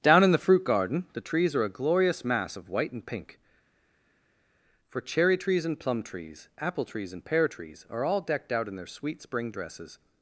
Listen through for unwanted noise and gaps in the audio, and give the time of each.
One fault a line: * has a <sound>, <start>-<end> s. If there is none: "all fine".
all fine